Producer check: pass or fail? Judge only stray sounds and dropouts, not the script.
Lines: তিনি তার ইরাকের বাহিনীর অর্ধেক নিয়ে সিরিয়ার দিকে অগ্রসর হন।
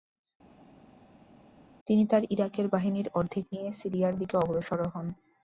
pass